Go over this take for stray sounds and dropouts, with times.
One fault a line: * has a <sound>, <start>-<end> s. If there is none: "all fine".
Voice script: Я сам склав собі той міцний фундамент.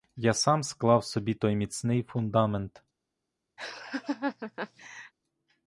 * has a laugh, 3.6-5.1 s